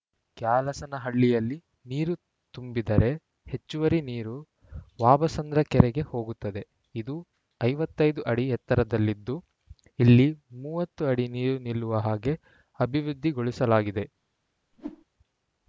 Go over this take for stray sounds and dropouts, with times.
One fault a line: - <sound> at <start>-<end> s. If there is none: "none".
- whoosh at 14.7-15.0 s